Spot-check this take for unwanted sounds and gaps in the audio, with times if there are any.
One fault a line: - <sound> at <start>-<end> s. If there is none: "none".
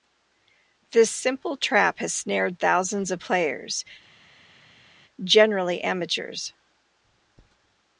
none